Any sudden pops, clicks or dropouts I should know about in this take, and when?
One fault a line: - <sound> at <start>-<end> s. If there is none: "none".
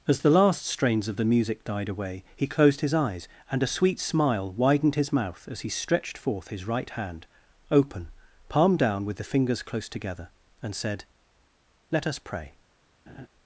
- laugh at 13.1-13.3 s